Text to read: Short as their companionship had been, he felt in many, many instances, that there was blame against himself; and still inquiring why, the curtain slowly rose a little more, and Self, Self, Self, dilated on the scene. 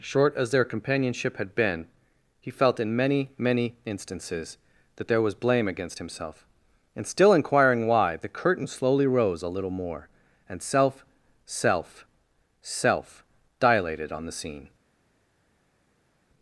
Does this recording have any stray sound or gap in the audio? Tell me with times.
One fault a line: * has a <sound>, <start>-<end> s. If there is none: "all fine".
all fine